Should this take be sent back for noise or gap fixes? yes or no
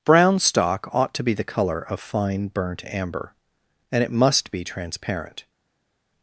no